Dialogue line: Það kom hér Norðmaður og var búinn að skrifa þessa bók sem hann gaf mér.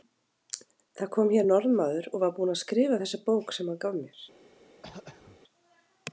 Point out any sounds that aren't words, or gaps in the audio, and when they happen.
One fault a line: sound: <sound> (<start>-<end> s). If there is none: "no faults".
sound: throat clearing (4.8-5.4 s)